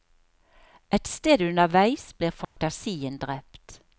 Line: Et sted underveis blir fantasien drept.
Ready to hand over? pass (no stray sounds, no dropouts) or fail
fail